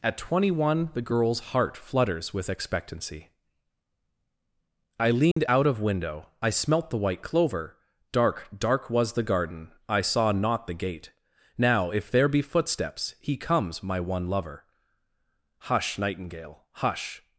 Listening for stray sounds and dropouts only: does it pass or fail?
fail